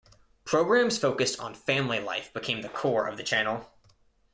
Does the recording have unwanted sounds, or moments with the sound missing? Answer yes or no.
no